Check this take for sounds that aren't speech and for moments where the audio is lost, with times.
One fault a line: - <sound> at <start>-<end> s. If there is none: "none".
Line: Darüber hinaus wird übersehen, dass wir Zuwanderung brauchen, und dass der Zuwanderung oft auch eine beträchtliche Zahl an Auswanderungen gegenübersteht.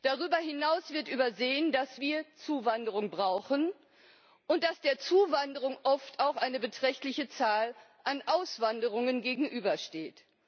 none